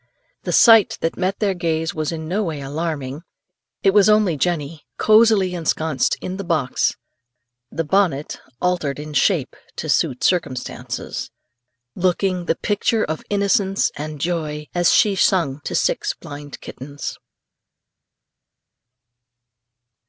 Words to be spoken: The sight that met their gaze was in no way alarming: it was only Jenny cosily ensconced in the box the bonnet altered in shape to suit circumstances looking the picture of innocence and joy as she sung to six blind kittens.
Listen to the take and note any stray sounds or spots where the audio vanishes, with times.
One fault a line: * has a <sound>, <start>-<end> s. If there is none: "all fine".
all fine